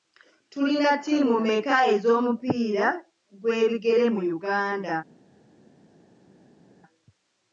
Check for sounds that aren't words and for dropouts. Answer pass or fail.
pass